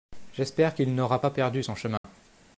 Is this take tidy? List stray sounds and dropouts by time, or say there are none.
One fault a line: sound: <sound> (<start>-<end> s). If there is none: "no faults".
sound: dropout (2.0-2.0 s)